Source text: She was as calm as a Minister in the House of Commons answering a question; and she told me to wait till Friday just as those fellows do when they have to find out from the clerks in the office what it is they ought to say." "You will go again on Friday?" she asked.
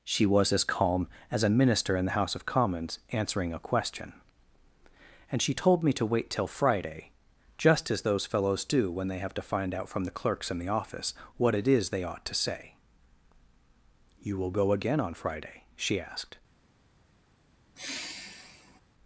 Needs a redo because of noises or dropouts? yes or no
yes